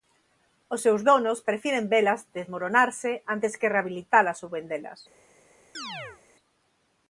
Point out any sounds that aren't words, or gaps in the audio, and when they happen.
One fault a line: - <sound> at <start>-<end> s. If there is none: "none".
- chirp at 5.7-6.2 s